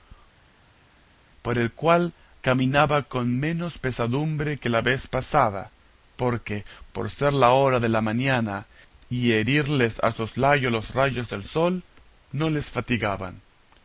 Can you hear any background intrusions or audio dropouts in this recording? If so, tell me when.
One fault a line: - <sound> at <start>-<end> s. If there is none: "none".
none